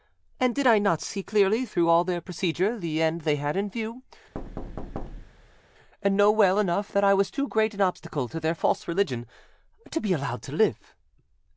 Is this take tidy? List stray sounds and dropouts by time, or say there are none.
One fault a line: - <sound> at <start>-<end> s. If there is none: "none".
- thud at 4.3-5.6 s